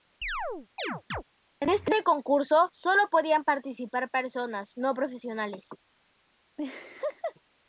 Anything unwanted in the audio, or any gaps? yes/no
yes